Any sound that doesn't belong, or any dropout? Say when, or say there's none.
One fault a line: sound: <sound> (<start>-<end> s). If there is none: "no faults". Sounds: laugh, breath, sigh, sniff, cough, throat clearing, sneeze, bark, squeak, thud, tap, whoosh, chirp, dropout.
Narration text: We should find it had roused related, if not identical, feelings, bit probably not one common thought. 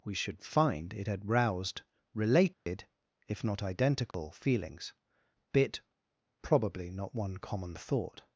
sound: dropout (2.5-2.7 s)
sound: dropout (4.1-4.1 s)